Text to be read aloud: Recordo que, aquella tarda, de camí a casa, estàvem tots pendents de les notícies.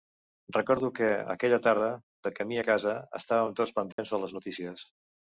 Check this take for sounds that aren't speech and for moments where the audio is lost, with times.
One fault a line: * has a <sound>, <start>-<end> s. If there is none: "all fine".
* has a dropout, 3.9-4.0 s